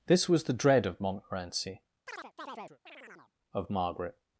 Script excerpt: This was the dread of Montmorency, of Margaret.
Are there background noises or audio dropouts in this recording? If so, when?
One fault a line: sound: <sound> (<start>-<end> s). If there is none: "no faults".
sound: chirp (2.1-3.3 s)